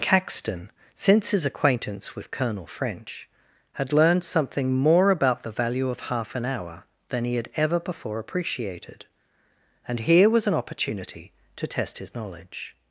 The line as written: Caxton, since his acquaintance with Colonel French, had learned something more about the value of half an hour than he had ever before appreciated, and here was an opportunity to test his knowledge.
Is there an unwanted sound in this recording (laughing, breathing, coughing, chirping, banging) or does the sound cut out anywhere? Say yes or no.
no